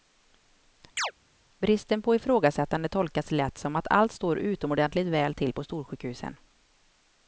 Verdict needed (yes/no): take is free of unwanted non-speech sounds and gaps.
no